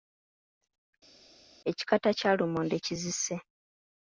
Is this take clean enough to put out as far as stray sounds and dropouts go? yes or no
yes